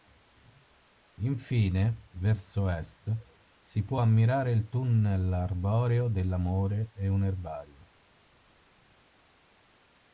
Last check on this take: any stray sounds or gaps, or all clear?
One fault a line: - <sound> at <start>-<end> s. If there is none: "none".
none